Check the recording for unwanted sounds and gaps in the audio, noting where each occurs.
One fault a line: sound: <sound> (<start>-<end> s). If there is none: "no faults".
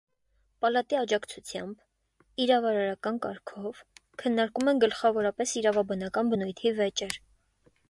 no faults